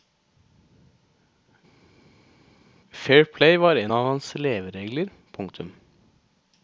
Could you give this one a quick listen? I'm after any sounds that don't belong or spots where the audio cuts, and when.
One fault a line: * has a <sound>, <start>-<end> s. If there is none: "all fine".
all fine